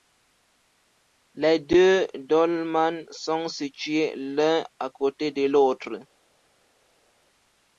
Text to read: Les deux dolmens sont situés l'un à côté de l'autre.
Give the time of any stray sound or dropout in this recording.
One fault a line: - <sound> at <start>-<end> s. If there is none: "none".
none